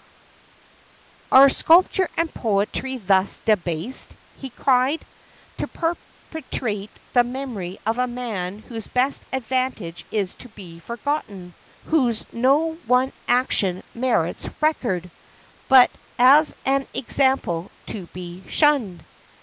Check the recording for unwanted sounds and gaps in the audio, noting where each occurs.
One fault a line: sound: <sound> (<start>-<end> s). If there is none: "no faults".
no faults